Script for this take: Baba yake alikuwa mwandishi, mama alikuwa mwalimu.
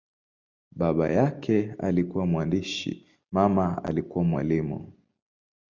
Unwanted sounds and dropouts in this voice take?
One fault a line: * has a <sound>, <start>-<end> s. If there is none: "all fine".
all fine